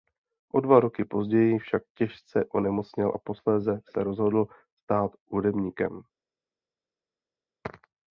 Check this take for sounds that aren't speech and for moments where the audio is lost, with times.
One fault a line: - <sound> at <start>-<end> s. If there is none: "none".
none